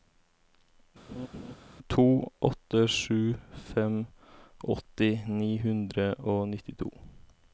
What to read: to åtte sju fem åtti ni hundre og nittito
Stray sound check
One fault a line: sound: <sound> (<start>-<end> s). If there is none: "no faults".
sound: laugh (1.1-1.5 s)